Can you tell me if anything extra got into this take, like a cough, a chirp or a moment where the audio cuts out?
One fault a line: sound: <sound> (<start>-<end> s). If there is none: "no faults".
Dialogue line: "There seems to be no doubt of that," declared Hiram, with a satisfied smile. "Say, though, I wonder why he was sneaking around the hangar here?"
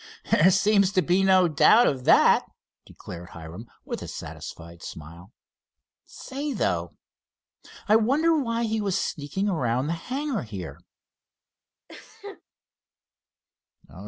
sound: sneeze (11.9-12.4 s)